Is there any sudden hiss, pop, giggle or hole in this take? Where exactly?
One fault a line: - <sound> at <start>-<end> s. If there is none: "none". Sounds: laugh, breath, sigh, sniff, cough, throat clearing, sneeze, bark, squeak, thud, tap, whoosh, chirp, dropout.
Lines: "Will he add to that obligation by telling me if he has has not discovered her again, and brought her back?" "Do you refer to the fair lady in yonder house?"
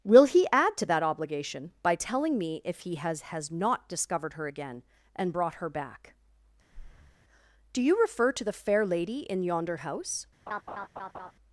- breath at 6.7-7.2 s
- laugh at 10.5-11.3 s